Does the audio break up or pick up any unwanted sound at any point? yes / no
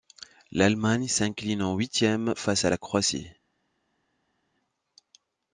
no